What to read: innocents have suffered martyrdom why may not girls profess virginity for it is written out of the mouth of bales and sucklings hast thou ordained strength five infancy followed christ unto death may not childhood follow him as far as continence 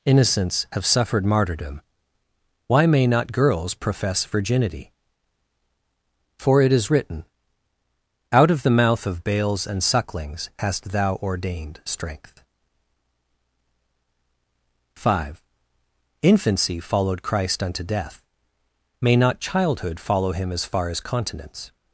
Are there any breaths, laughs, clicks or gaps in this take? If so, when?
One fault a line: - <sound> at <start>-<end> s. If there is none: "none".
none